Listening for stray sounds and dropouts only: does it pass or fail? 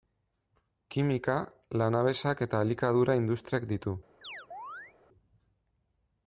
fail